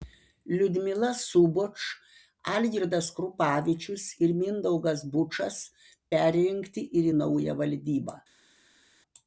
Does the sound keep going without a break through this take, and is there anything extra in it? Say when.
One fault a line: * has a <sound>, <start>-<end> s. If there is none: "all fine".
all fine